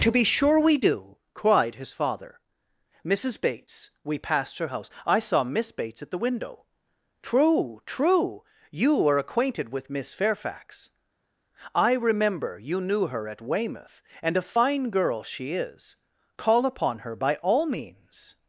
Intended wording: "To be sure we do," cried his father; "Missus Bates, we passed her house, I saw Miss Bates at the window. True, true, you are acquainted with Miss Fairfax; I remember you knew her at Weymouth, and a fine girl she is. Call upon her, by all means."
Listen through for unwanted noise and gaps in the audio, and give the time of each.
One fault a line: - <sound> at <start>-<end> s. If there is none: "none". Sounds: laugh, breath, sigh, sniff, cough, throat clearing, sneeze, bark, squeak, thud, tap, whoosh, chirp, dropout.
none